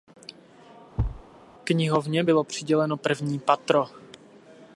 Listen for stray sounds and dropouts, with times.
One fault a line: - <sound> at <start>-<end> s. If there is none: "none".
- thud at 1.0-1.2 s